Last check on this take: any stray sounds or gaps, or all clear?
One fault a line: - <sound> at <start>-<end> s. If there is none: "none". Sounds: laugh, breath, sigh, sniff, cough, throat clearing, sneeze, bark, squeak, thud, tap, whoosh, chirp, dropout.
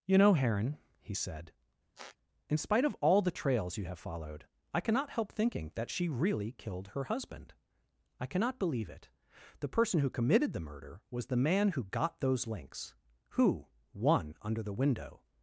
- squeak at 2.0-2.2 s